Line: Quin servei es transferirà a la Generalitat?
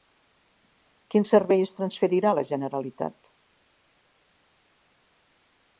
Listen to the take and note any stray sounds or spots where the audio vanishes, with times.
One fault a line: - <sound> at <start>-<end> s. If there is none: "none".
none